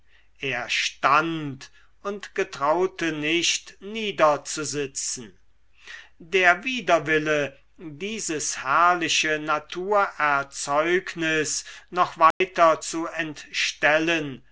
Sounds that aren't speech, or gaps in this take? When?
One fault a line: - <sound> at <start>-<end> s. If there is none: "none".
- dropout at 12.3-12.4 s